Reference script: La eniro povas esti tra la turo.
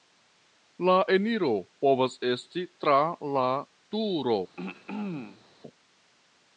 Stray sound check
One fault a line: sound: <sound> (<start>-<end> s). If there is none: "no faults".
sound: throat clearing (4.6-5.5 s)